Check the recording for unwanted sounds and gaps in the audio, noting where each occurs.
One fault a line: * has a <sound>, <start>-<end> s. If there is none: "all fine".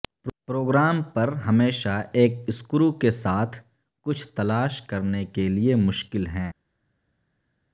all fine